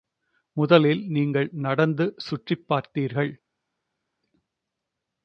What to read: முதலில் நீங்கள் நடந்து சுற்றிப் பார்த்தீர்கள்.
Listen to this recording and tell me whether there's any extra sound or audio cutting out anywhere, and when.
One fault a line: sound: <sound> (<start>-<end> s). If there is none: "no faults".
no faults